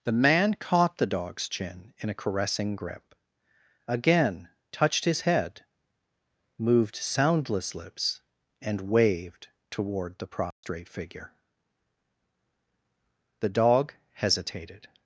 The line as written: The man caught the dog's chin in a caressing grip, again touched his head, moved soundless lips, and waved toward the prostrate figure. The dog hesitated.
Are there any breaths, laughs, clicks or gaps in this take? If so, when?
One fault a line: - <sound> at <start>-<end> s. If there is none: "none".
- dropout at 10.5-10.6 s